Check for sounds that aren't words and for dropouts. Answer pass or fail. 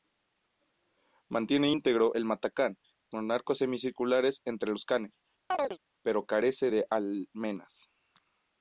fail